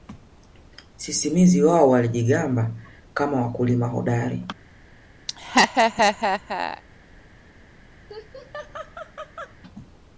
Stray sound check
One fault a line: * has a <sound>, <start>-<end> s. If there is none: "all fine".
* has a laugh, 5.3-6.8 s
* has a laugh, 8.1-9.6 s